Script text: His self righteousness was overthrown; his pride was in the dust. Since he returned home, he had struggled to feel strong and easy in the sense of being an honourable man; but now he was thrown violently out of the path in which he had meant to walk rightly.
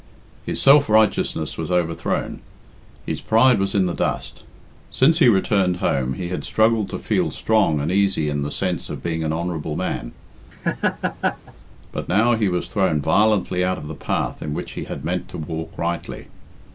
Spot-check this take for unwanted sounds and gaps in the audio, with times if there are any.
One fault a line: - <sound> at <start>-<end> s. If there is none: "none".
- laugh at 10.5-11.5 s